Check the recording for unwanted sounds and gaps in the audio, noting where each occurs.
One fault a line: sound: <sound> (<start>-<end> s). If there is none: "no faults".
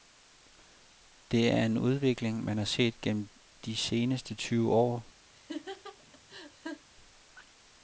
sound: laugh (5.3-6.9 s)